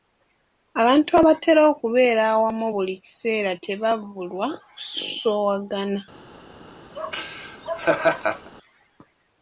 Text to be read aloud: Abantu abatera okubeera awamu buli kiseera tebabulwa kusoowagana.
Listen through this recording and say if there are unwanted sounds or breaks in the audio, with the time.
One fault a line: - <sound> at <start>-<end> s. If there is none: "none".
- laugh at 6.9-8.5 s